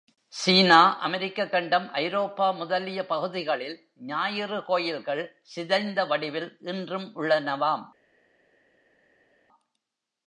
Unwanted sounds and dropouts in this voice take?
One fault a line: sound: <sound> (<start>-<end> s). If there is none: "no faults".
no faults